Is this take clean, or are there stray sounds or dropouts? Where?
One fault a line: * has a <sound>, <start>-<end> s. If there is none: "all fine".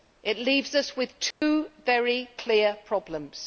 * has a dropout, 1.3-1.4 s